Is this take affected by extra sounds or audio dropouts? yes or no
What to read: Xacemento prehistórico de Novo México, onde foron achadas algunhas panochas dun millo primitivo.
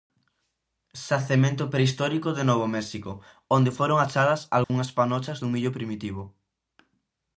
yes